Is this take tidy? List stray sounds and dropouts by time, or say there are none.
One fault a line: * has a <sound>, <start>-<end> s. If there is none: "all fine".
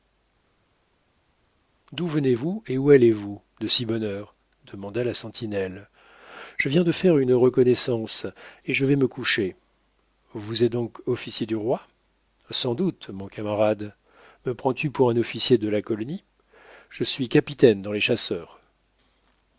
all fine